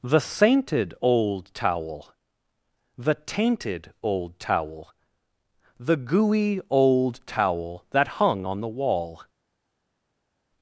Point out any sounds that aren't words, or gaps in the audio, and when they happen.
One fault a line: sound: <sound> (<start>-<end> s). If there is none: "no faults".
no faults